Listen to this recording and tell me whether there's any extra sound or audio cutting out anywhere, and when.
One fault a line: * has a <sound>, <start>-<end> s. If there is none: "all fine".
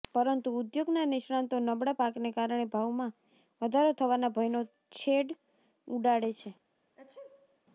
* has a sneeze, 7.0-7.6 s